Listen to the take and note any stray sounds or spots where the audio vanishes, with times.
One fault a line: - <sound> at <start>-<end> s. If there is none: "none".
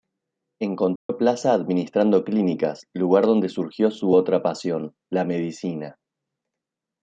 - dropout at 1.0-1.1 s